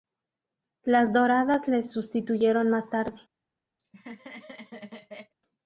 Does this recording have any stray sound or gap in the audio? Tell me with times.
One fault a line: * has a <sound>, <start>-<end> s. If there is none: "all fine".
* has a laugh, 3.8-5.3 s